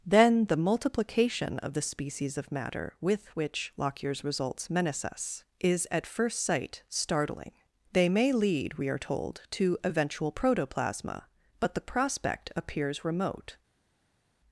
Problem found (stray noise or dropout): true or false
false